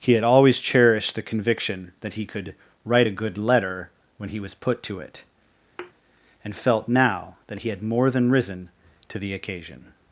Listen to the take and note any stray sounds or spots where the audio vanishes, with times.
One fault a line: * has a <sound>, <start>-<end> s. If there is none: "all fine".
* has a thud, 5.8-5.9 s